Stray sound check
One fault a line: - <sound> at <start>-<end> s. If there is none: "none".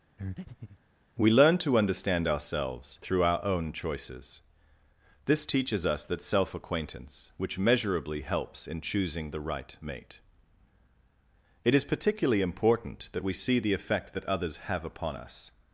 - breath at 0.2-0.8 s